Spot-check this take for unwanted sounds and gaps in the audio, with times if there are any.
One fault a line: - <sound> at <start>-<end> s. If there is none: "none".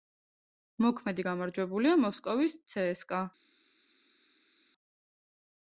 none